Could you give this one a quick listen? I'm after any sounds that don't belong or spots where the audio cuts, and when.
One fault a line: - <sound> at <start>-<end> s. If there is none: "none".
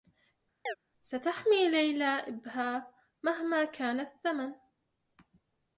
- chirp at 0.7-0.8 s